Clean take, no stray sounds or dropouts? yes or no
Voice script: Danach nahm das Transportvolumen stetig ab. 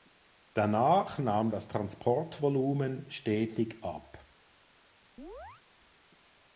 no